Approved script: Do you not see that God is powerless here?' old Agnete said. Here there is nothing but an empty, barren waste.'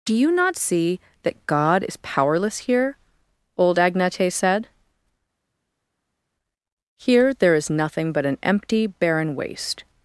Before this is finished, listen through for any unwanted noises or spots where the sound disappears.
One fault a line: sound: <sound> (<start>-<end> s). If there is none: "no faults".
no faults